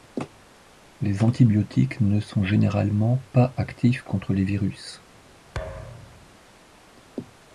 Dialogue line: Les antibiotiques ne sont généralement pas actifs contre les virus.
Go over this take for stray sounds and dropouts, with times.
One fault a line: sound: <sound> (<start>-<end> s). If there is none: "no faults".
sound: thud (5.5-6.3 s)